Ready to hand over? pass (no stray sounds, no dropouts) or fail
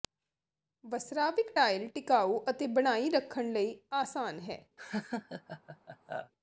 fail